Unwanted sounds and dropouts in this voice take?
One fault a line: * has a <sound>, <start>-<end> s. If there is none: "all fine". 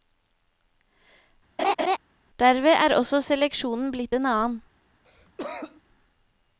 * has a laugh, 1.6-2.0 s
* has a cough, 5.0-5.8 s